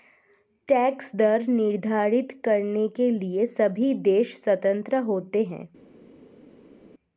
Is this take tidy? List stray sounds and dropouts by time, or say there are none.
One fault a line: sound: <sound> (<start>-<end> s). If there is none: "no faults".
no faults